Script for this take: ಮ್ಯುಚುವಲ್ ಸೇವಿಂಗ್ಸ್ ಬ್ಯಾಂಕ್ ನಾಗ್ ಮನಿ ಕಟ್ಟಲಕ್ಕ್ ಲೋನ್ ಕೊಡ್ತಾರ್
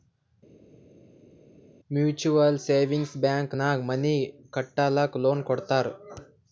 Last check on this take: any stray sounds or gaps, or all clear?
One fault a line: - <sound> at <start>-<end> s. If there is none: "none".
none